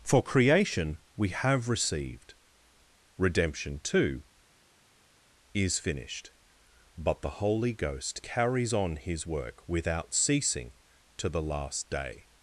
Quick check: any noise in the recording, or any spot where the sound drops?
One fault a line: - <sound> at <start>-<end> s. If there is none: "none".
none